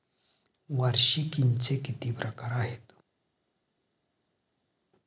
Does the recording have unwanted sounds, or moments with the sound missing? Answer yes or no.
no